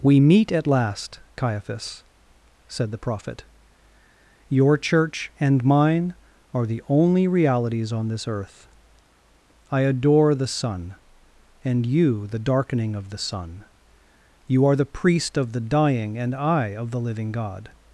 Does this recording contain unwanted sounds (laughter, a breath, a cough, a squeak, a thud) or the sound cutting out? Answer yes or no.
no